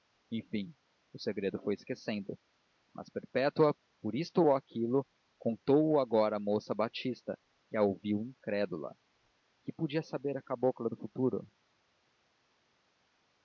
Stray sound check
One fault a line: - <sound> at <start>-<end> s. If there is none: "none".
none